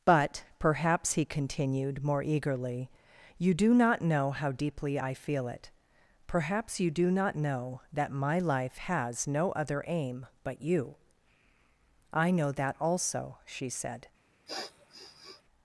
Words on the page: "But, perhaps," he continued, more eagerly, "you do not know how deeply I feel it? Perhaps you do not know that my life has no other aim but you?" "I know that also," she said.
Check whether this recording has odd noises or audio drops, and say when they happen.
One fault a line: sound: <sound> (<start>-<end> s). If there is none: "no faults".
sound: sniff (14.5-15.4 s)